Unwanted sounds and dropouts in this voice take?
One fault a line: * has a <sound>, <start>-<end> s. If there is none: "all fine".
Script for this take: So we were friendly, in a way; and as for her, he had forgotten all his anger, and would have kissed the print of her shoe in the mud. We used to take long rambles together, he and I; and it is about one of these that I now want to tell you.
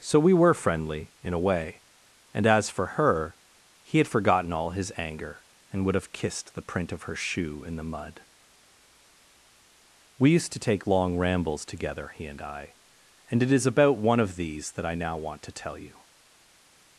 all fine